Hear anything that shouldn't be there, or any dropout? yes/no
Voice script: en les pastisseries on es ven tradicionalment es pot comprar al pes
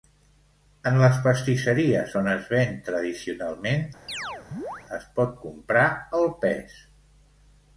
yes